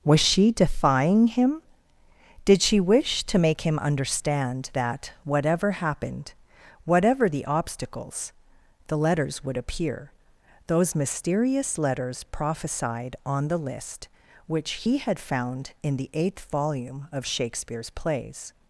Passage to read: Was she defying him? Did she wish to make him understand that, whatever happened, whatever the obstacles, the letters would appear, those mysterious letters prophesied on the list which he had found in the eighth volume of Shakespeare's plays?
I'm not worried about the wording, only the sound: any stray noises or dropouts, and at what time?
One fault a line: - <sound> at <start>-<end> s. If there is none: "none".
none